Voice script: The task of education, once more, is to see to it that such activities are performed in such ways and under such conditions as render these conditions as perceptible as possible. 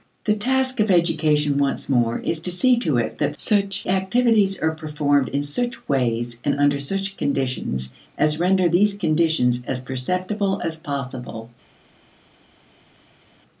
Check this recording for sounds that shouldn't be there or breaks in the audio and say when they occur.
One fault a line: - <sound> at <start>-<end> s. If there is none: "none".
none